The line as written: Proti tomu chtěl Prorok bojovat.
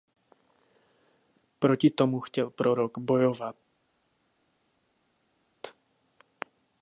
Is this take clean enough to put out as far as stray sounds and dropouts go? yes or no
yes